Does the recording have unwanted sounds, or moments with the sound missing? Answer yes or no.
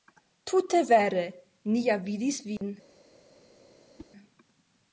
yes